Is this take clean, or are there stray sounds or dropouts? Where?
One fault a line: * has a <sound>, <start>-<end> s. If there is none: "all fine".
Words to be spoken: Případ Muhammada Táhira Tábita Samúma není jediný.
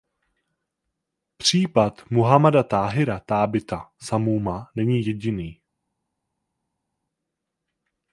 all fine